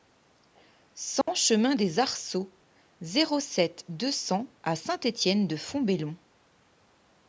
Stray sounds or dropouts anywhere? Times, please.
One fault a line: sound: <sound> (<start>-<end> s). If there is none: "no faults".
sound: dropout (1.2-1.3 s)